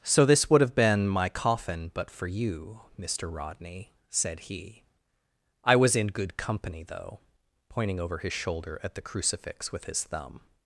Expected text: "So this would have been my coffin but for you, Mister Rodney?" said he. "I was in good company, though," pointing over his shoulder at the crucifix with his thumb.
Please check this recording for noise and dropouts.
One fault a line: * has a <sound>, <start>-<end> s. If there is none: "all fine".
all fine